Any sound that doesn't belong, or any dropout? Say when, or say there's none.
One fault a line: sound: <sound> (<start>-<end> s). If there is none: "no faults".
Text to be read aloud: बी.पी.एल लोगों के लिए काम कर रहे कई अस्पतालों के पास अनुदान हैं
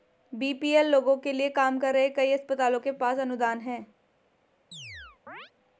sound: chirp (4.7-5.5 s)